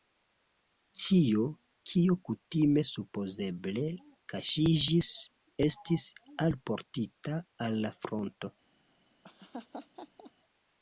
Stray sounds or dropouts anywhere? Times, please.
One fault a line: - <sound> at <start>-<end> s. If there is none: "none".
- laugh at 9.2-10.3 s